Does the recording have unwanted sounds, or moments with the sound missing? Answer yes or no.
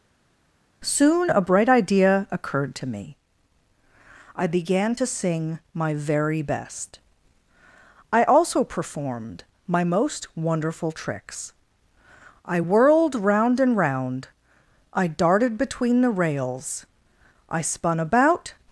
no